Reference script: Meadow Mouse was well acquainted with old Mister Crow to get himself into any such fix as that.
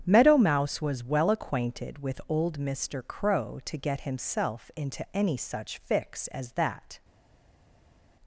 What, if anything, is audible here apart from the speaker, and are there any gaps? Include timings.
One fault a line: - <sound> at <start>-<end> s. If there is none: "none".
none